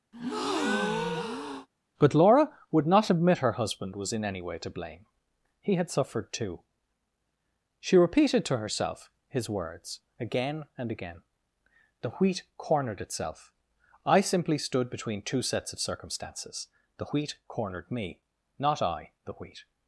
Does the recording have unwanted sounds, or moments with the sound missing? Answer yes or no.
yes